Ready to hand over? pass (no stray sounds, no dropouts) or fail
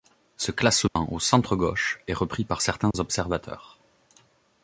fail